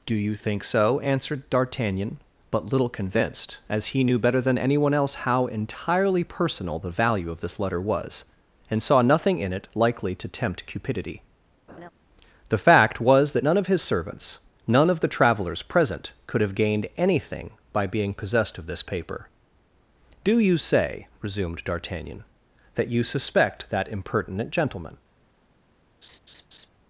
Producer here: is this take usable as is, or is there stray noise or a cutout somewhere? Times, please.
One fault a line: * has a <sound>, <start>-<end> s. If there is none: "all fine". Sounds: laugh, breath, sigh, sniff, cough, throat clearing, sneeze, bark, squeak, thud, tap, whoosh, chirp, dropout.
* has a laugh, 11.7-11.9 s
* has a laugh, 26.0-26.7 s